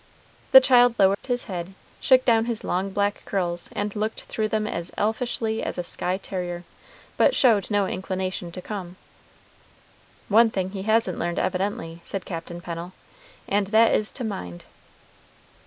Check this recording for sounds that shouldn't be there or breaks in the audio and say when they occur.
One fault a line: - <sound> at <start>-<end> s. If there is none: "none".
- dropout at 1.1-1.2 s